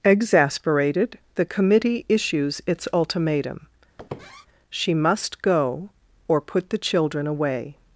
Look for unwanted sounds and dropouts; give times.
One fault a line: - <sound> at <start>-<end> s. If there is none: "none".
- squeak at 4.0-4.5 s